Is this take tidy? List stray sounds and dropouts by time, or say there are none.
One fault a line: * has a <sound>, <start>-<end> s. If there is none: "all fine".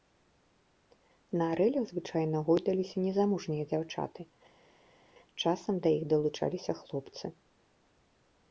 all fine